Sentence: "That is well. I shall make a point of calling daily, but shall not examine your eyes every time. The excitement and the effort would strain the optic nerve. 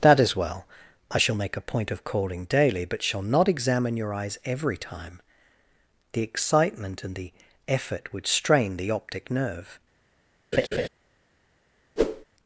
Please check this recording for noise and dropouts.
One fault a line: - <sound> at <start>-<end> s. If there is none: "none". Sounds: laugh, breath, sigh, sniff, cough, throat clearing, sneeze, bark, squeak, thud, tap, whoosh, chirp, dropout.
- laugh at 10.5-10.9 s
- whoosh at 12.0-12.2 s